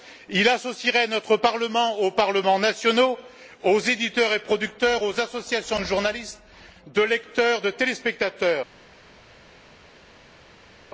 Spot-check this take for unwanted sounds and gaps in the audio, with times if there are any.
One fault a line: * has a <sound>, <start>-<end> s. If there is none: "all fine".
all fine